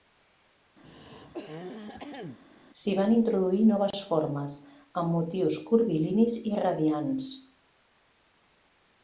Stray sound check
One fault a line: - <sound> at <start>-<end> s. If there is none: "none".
- throat clearing at 0.8-2.4 s